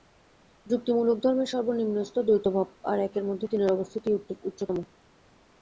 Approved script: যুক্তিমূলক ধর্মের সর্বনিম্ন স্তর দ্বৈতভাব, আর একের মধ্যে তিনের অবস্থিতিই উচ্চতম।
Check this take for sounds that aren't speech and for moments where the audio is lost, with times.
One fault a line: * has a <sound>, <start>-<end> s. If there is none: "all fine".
all fine